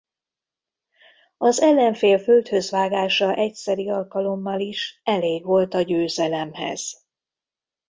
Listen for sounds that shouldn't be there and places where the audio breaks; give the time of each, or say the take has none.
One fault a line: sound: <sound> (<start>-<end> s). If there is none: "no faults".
no faults